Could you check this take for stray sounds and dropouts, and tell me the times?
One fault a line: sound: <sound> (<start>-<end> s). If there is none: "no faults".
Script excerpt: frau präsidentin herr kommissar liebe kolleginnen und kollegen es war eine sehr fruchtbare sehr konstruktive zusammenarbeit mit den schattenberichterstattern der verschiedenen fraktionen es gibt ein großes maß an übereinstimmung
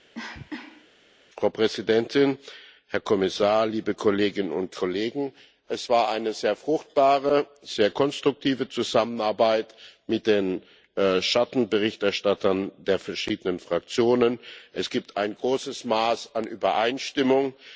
sound: cough (0.1-0.9 s)